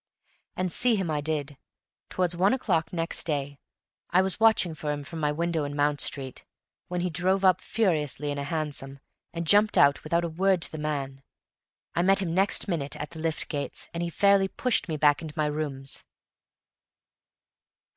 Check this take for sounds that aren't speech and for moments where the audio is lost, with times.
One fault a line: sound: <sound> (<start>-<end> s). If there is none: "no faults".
no faults